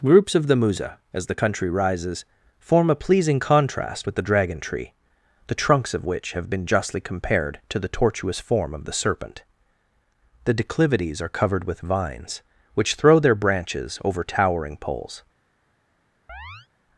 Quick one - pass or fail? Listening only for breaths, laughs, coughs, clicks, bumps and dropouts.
fail